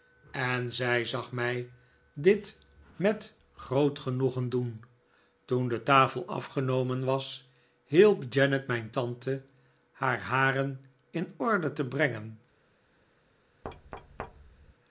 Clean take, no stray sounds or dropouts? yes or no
no